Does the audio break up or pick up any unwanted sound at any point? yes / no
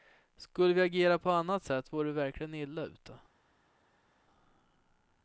no